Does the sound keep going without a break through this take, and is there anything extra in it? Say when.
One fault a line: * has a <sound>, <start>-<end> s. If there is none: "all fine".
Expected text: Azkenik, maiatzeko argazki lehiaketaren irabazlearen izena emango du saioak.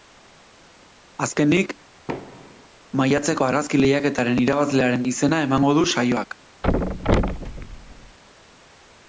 * has a thud, 2.1-2.7 s
* has a thud, 6.6-8.2 s